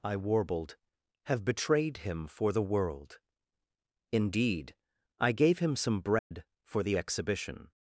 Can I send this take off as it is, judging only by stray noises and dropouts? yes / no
no